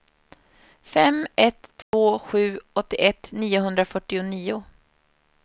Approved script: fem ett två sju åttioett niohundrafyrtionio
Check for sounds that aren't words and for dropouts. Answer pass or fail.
fail